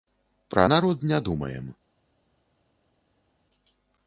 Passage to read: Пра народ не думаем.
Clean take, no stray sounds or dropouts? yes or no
yes